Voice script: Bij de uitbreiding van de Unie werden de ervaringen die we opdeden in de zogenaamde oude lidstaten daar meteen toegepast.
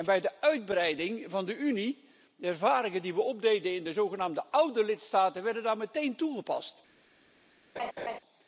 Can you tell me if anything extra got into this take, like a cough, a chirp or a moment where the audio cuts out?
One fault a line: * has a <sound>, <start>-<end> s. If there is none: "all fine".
* has a laugh, 7.8-8.2 s